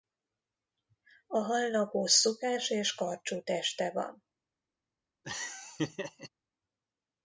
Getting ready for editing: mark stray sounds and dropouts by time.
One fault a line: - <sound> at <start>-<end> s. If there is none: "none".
- laugh at 5.2-6.3 s